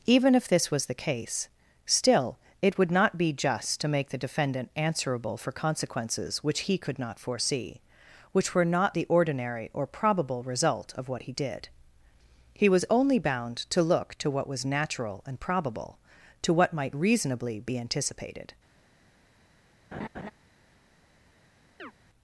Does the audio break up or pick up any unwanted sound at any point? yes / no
yes